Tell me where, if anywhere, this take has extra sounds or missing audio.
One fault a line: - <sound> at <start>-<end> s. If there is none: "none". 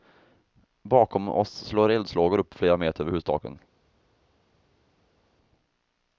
none